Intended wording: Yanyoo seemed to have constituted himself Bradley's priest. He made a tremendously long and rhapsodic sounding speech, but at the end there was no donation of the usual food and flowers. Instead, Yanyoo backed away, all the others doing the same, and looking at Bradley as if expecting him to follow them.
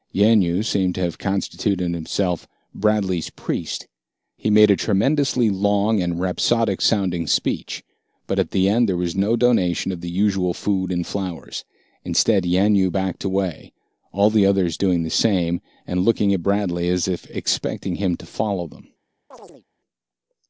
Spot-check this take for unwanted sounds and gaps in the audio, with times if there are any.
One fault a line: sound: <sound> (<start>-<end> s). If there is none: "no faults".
sound: chirp (19.3-19.7 s)